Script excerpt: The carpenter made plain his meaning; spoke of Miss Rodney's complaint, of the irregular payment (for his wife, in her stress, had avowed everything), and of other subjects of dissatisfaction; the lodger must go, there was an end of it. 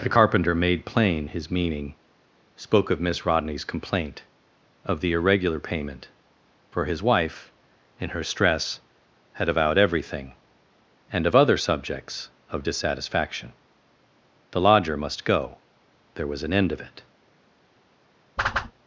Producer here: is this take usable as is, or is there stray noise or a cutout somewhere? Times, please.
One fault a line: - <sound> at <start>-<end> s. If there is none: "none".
- whoosh at 18.4-18.7 s